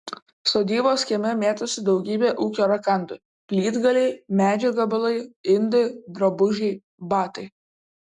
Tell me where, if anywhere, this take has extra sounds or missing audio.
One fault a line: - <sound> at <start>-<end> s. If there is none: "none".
none